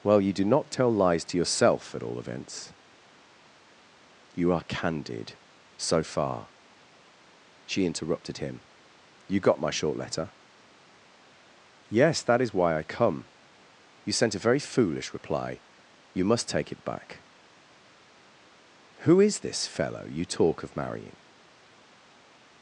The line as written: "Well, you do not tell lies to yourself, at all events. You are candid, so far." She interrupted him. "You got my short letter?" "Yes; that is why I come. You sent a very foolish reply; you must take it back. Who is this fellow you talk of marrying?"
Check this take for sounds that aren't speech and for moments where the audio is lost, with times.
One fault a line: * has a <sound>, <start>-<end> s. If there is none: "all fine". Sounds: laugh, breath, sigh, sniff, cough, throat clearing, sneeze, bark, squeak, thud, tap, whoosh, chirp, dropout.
all fine